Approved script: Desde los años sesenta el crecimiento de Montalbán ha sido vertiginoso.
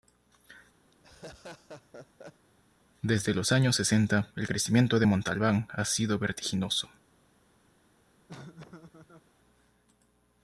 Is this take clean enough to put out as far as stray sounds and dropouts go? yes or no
no